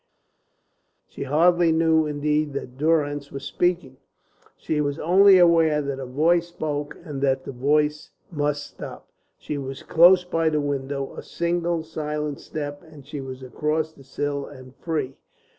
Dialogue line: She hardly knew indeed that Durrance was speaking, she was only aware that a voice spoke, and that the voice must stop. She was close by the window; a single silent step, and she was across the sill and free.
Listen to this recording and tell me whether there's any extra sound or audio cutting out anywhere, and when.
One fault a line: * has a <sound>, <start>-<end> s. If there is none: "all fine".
all fine